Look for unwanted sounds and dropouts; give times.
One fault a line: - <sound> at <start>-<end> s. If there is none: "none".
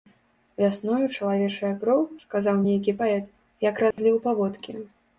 - dropout at 3.9-4.0 s